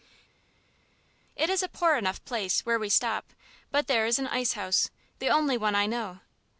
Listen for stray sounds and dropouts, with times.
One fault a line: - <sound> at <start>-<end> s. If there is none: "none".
none